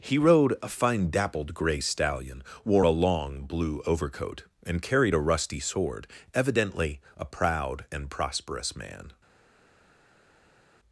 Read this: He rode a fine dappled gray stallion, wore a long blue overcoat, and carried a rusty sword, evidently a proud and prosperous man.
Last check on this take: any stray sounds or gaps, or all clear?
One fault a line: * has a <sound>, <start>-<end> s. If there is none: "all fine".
all fine